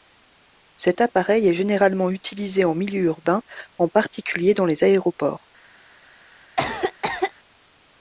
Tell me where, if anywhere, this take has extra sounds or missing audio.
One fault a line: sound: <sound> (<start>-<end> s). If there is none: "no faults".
sound: cough (6.6-7.3 s)